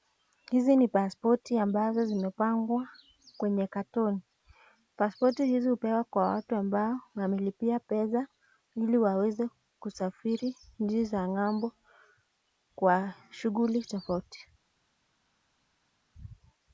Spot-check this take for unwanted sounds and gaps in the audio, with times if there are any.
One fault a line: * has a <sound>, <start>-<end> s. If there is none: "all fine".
all fine